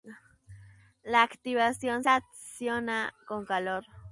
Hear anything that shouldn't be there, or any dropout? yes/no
no